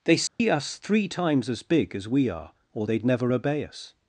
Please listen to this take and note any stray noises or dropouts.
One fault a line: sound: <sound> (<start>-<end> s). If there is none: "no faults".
sound: dropout (0.3-0.4 s)